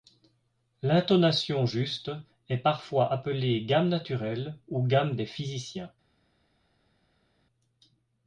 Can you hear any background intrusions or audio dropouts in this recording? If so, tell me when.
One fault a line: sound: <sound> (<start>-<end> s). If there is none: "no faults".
no faults